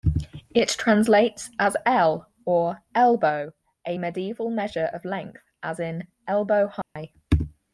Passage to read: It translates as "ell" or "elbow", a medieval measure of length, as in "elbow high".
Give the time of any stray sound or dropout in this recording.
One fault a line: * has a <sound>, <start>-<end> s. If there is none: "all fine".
* has a dropout, 6.8-7.0 s